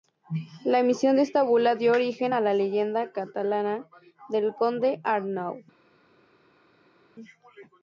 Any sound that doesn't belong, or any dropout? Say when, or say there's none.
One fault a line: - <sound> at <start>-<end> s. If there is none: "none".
none